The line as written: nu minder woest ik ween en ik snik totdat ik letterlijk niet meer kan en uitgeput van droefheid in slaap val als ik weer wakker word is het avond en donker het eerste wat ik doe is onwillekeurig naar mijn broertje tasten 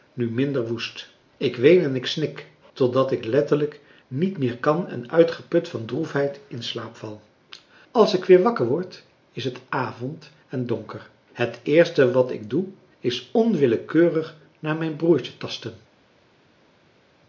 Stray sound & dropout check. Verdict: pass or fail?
pass